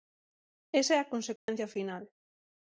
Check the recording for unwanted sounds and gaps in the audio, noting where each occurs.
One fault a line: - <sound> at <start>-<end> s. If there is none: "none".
- dropout at 1.4-1.5 s